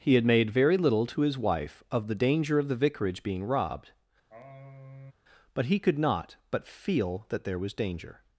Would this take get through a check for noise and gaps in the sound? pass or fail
fail